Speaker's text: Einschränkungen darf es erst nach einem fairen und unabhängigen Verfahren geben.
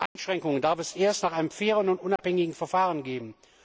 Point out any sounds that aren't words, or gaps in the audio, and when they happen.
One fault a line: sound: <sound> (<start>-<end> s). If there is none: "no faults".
sound: dropout (0.1-0.2 s)
sound: dropout (2.2-2.2 s)